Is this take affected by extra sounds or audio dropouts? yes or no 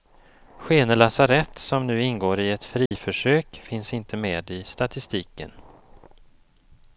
yes